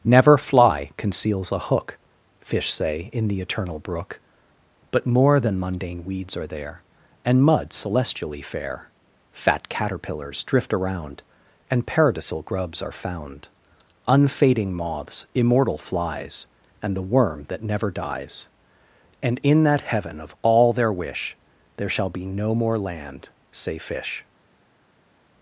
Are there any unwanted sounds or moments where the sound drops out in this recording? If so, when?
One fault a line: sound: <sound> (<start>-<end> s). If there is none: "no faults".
no faults